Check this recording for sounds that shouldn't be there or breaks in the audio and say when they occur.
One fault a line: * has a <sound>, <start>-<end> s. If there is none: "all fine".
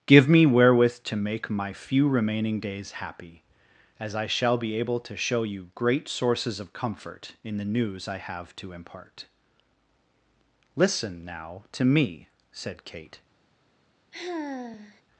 * has a sigh, 14.1-15.0 s